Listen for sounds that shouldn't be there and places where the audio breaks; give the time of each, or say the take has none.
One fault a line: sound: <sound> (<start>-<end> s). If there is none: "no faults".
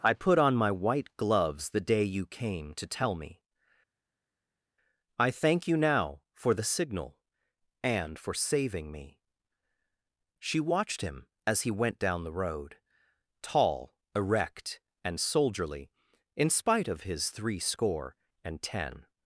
no faults